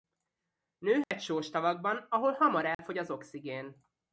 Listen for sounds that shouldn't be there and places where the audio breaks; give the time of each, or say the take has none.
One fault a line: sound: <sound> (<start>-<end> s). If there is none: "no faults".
sound: dropout (1.0-1.1 s)
sound: dropout (2.7-2.8 s)